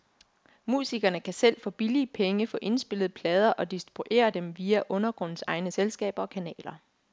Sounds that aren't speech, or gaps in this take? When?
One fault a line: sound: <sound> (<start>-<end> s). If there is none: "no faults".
no faults